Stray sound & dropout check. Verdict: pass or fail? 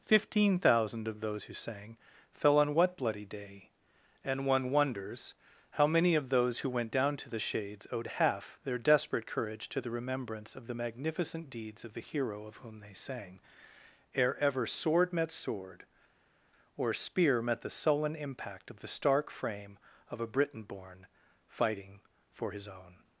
pass